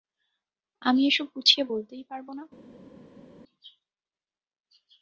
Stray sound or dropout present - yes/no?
no